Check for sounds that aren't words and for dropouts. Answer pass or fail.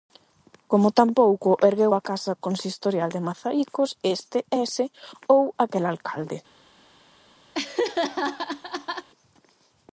fail